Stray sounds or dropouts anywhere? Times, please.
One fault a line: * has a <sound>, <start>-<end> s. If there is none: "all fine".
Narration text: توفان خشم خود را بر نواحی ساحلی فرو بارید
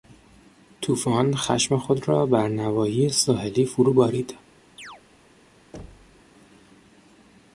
* has a chirp, 4.8-5.0 s
* has a thud, 5.7-6.2 s